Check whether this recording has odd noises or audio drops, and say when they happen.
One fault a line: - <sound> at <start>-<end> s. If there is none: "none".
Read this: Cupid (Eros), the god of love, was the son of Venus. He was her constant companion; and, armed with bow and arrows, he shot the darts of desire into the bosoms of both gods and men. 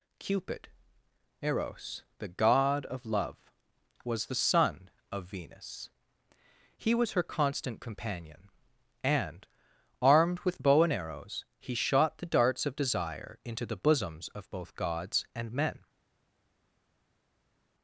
none